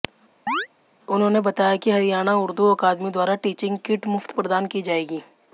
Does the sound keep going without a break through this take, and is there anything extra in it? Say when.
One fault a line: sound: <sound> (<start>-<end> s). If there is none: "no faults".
sound: chirp (0.5-0.7 s)